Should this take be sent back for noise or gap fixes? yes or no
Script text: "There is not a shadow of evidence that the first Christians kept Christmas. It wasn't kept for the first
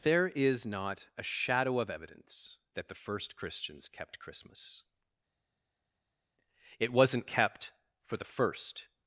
no